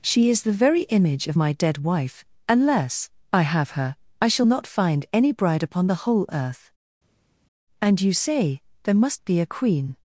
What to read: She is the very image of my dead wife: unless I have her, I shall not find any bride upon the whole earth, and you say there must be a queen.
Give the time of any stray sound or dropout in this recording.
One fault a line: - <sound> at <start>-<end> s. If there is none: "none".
none